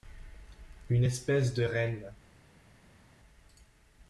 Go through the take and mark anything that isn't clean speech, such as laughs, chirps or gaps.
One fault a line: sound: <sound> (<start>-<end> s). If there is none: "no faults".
no faults